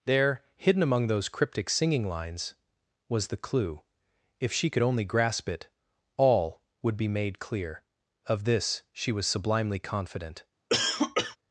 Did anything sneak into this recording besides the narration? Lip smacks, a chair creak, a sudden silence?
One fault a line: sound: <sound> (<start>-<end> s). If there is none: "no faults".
sound: cough (10.7-11.4 s)